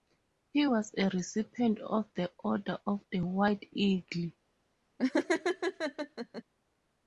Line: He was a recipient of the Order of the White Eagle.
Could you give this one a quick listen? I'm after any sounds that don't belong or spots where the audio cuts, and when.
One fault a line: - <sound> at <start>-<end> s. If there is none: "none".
- laugh at 5.0-6.4 s